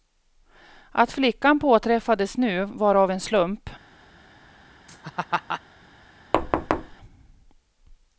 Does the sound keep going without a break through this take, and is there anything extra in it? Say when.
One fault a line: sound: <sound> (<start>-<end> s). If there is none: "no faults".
sound: laugh (4.9-5.6 s)
sound: thud (6.3-7.0 s)